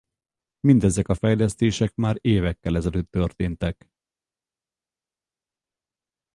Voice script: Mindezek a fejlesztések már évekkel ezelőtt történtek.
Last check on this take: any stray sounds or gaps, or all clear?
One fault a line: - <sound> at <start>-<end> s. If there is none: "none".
none